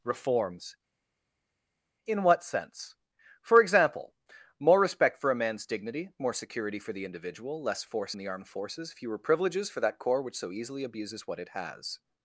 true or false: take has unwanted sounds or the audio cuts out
false